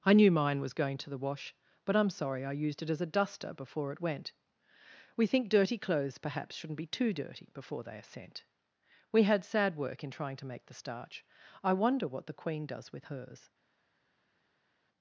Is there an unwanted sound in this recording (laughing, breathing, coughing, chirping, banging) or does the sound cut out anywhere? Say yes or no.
no